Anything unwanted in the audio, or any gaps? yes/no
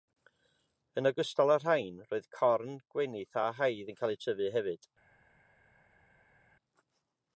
no